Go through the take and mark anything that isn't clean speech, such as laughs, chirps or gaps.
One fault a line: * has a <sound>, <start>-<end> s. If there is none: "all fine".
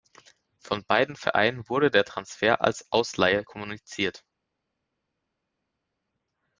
all fine